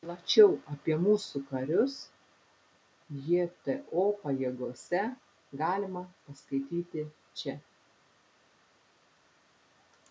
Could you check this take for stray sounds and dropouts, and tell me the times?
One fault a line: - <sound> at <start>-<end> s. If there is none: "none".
none